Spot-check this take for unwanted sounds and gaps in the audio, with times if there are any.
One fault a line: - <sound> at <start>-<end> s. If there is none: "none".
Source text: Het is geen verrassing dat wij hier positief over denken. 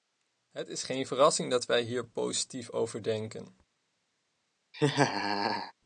- laugh at 4.7-5.7 s